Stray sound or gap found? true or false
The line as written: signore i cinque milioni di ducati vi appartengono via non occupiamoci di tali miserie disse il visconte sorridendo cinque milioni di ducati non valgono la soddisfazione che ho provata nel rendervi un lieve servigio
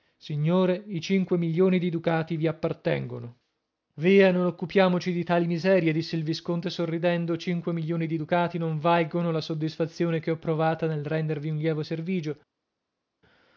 false